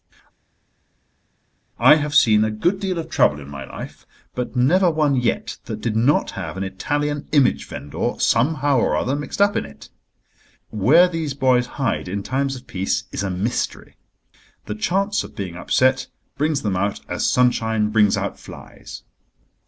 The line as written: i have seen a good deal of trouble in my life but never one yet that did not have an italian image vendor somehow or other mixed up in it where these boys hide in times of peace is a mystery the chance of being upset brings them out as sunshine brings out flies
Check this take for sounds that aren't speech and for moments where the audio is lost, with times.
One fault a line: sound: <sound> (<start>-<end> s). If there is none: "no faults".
no faults